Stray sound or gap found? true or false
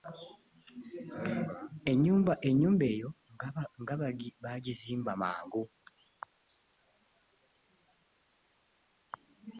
false